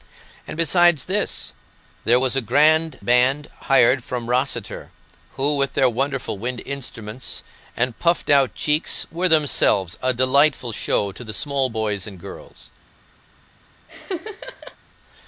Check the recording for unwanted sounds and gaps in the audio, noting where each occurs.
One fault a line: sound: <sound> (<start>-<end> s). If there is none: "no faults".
sound: laugh (13.9-14.8 s)